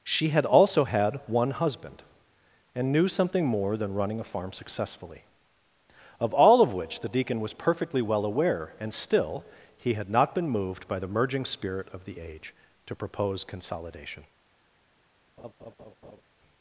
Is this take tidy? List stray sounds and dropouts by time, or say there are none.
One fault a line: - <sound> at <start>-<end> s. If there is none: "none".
- laugh at 15.4-16.2 s